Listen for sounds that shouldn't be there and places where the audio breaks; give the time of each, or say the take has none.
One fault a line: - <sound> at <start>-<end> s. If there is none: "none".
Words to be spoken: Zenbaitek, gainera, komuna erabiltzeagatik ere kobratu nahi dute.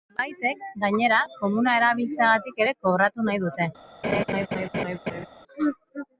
- laugh at 4.0-5.3 s